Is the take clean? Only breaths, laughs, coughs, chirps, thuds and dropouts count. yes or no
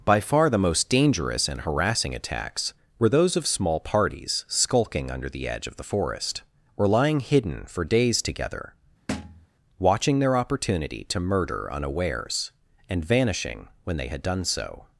no